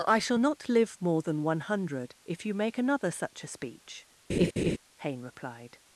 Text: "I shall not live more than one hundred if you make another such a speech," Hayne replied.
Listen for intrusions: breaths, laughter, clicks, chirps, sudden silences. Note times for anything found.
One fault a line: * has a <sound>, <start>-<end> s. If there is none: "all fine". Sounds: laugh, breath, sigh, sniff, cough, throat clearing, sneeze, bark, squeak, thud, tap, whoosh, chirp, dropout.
* has a laugh, 4.3-4.8 s